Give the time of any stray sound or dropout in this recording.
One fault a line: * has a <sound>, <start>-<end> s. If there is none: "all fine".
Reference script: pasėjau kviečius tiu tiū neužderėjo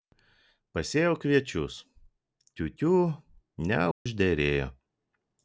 * has a dropout, 3.9-4.1 s